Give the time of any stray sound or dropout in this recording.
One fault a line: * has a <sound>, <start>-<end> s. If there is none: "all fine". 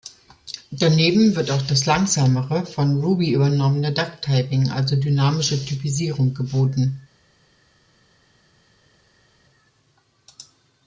all fine